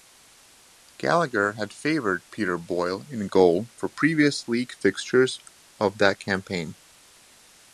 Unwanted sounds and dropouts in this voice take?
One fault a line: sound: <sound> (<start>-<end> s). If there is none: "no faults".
no faults